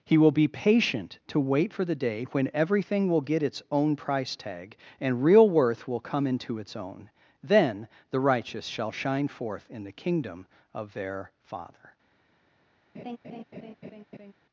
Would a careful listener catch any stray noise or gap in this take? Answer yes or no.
yes